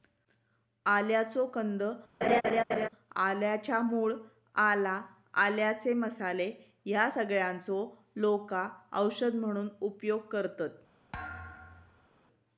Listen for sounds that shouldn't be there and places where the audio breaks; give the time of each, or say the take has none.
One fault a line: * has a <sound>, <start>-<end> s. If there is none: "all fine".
* has a laugh, 2.2-2.9 s
* has a thud, 11.1-12.1 s